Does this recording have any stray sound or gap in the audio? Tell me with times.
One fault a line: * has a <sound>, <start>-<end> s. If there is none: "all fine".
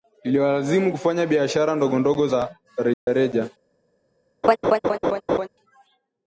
* has a dropout, 2.9-3.1 s
* has a laugh, 4.4-5.5 s